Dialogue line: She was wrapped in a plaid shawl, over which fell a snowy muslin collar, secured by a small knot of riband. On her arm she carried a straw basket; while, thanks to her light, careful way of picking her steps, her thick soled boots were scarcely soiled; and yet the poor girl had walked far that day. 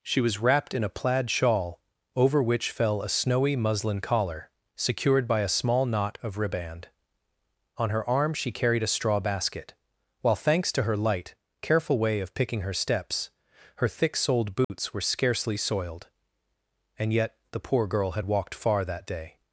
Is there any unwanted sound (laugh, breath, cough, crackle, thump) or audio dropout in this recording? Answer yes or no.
yes